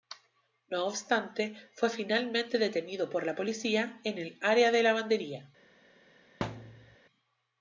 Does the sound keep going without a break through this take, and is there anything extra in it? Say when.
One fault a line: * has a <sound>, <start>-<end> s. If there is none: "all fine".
* has a thud, 6.4-7.0 s